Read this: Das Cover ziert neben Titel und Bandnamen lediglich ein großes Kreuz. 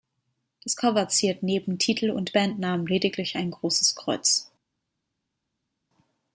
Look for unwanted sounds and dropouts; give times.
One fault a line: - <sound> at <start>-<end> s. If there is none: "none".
none